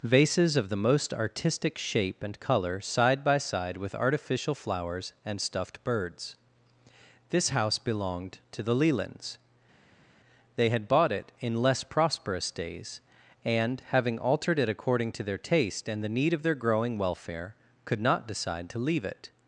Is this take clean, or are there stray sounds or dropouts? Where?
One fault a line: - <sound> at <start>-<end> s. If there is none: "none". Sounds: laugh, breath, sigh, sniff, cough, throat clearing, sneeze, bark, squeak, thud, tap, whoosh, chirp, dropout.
none